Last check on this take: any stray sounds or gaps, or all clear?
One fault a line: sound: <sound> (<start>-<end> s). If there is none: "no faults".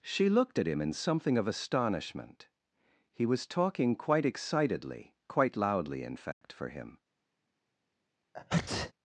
sound: dropout (6.3-6.4 s)
sound: sneeze (8.3-8.9 s)